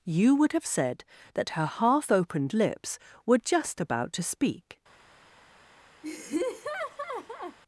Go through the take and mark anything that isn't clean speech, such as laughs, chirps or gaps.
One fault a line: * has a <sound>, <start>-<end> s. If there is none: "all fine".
* has a laugh, 6.0-7.6 s